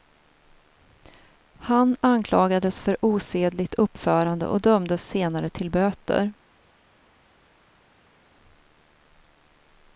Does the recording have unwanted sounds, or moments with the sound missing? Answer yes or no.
no